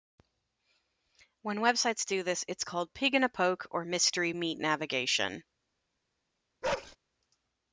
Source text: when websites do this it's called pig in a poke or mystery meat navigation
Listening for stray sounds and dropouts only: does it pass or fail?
fail